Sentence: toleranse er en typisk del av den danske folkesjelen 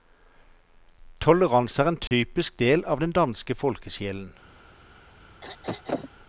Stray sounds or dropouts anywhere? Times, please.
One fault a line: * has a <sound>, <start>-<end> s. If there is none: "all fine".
* has a dropout, 2.1-2.1 s
* has a throat clearing, 5.4-6.1 s